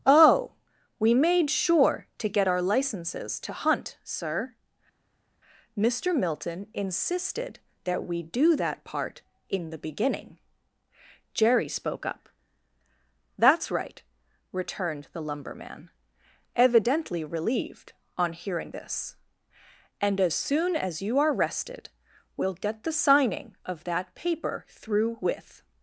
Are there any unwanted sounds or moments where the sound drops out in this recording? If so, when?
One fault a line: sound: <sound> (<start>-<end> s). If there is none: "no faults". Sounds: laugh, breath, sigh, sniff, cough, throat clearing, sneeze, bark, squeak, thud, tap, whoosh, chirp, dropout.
no faults